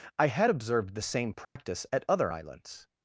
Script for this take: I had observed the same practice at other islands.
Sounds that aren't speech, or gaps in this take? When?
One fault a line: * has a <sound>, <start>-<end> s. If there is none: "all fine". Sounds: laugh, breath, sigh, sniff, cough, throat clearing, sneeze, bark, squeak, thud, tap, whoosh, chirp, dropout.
* has a dropout, 1.4-1.6 s